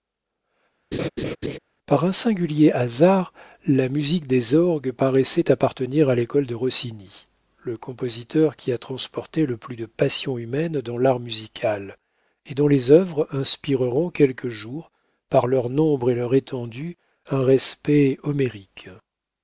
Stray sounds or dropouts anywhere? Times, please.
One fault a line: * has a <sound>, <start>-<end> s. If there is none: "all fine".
* has a laugh, 0.9-1.6 s